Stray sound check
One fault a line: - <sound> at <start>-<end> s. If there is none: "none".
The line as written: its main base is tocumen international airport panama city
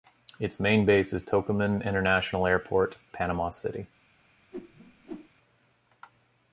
- whoosh at 4.5-5.3 s